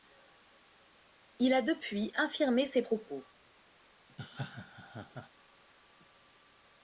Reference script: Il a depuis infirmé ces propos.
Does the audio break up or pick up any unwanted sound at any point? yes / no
yes